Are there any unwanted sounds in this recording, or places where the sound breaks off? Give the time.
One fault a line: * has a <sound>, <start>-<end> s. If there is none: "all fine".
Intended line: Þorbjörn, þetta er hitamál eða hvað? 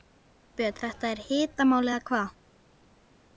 all fine